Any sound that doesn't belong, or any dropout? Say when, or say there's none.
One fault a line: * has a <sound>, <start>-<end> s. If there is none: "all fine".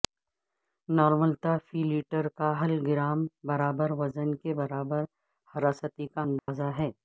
* has a dropout, 6.4-6.5 s